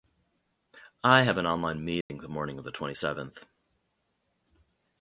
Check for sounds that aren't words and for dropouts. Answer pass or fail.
fail